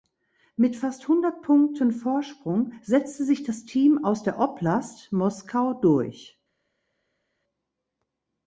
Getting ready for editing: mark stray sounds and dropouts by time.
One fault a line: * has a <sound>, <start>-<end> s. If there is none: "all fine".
all fine